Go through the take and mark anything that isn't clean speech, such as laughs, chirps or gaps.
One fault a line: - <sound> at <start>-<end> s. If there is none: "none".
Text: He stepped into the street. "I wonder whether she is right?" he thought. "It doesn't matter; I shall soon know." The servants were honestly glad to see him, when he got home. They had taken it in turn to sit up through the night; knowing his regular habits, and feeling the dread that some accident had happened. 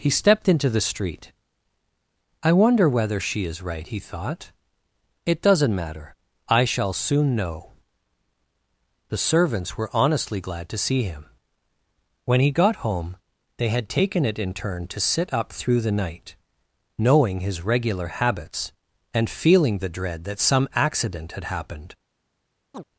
- chirp at 22.7-22.8 s